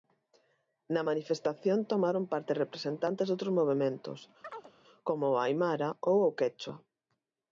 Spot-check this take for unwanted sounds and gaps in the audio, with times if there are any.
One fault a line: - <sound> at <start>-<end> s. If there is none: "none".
- chirp at 4.4-4.7 s